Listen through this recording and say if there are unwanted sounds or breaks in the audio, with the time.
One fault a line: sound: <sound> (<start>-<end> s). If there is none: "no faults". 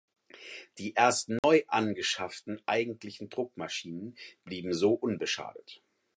sound: dropout (1.4-1.4 s)